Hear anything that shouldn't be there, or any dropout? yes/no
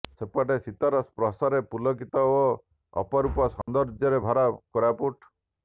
yes